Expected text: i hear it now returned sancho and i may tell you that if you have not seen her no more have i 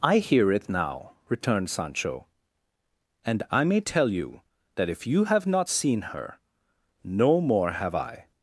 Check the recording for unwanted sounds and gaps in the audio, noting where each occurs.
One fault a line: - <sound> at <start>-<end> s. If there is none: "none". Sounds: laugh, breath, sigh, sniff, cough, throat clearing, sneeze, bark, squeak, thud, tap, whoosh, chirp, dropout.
none